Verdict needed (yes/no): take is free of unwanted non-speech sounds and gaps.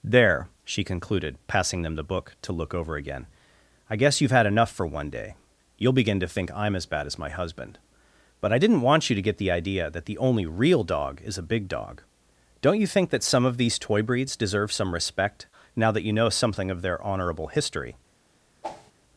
no